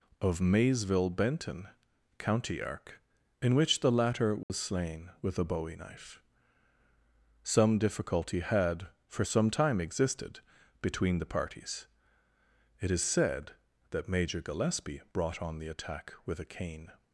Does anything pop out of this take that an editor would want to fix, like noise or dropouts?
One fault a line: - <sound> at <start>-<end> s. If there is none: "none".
- dropout at 4.4-4.5 s